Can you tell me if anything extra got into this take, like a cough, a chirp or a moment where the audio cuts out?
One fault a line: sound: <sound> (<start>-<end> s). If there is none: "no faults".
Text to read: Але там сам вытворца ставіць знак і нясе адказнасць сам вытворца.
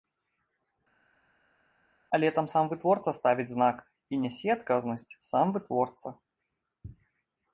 no faults